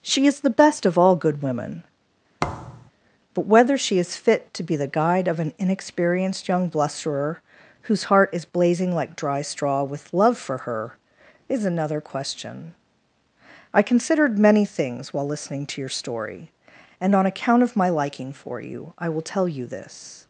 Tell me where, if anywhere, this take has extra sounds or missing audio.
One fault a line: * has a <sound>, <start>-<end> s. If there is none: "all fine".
* has a thud, 2.4-2.9 s